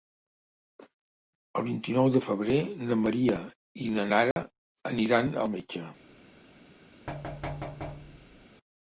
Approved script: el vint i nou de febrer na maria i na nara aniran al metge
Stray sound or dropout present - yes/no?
yes